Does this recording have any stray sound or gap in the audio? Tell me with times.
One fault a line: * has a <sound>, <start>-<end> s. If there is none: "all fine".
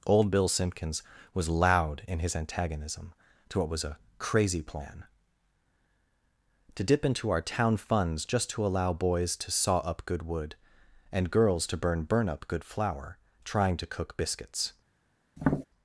* has a tap, 15.4-15.7 s